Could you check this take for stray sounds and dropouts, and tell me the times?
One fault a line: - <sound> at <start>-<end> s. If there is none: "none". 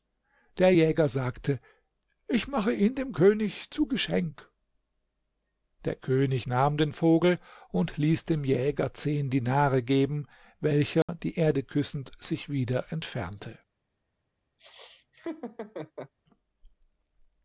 - dropout at 11.0-11.1 s
- laugh at 14.6-16.1 s